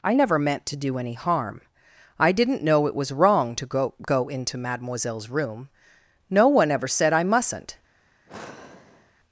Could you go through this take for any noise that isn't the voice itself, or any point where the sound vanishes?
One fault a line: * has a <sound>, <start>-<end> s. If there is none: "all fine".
* has a sigh, 8.3-9.1 s